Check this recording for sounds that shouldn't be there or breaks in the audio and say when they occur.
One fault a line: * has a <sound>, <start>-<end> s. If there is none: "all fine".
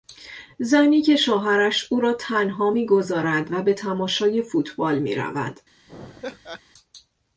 * has a laugh, 5.9-6.6 s